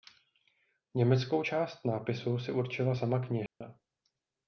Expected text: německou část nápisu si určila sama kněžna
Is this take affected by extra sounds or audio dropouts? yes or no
yes